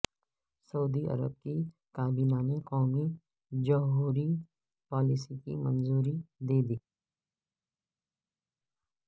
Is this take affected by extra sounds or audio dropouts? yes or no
no